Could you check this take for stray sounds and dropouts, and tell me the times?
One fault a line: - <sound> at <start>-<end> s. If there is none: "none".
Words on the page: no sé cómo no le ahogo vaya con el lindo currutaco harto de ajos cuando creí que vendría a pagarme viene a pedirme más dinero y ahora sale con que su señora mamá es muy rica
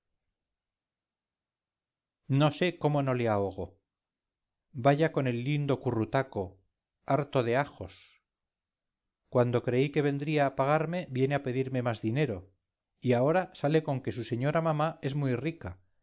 none